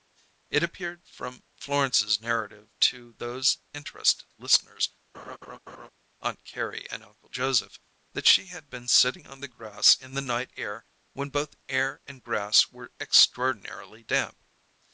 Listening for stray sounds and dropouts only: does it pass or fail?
fail